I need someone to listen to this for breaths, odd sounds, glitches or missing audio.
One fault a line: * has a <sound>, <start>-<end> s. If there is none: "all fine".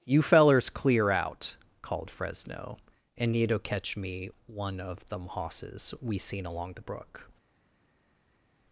all fine